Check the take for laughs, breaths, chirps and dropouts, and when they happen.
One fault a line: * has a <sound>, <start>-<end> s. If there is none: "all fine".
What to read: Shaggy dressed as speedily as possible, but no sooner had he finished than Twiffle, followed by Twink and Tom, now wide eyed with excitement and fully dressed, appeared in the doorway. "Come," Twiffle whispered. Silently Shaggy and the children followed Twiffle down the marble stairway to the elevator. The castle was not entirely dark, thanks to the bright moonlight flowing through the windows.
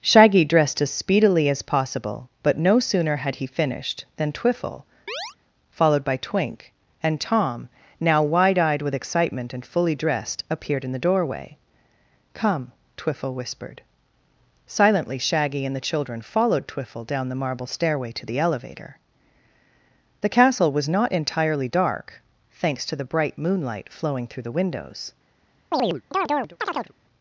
* has a chirp, 5.1-5.4 s
* has a chirp, 25.7-26.9 s